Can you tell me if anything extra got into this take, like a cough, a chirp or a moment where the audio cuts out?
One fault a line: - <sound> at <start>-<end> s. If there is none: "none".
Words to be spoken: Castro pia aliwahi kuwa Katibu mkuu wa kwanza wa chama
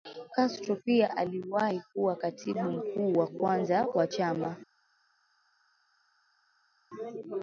none